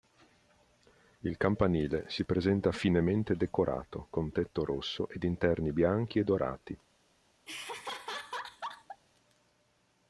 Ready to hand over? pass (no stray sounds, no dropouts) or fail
fail